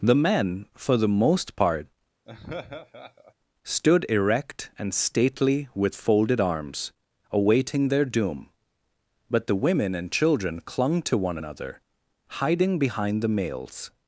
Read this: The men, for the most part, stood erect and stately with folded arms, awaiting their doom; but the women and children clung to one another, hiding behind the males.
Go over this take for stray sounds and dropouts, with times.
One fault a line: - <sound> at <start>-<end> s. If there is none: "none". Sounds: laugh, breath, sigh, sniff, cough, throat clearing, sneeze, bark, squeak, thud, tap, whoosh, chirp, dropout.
- laugh at 2.3-3.3 s